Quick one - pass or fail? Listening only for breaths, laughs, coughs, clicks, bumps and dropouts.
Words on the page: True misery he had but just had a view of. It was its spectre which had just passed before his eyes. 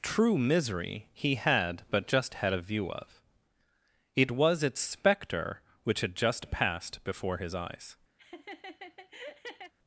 fail